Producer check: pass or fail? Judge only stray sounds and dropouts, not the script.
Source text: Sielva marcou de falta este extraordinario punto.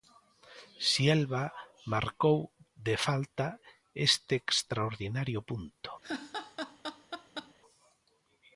fail